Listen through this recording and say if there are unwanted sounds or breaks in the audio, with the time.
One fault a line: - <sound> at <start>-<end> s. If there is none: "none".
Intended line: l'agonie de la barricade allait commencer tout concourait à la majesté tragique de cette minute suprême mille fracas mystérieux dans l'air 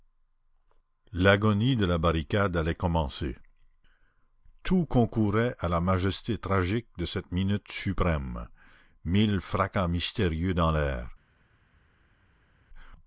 none